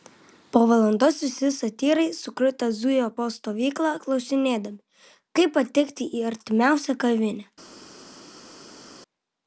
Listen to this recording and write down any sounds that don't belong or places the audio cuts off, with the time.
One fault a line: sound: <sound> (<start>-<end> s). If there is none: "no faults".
no faults